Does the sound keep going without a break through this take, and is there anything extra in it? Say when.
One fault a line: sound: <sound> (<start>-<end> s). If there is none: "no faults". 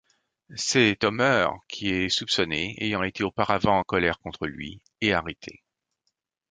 no faults